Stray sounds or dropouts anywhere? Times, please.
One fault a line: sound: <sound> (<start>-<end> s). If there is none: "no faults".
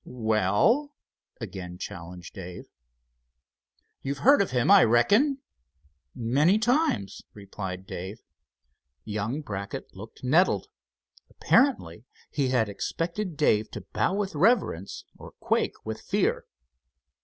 no faults